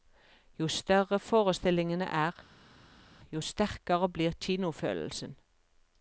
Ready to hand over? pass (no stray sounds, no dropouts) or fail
pass